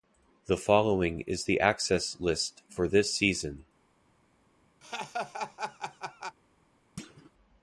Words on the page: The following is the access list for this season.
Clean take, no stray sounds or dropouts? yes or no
no